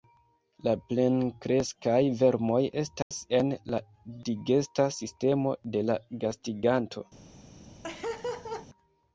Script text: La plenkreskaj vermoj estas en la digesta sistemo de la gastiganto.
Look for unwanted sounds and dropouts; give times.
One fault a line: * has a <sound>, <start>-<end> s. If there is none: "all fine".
* has a dropout, 3.0-3.1 s
* has a laugh, 7.8-8.7 s